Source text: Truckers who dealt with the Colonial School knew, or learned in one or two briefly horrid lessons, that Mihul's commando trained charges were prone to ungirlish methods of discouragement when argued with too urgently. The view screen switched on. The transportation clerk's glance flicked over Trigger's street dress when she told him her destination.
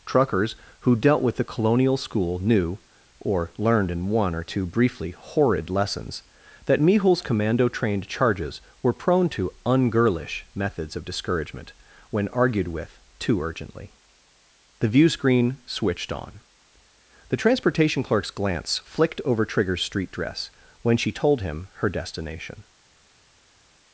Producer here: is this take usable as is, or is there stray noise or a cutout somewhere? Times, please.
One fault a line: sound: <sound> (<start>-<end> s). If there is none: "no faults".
no faults